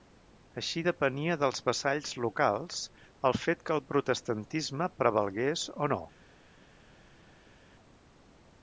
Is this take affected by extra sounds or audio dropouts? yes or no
no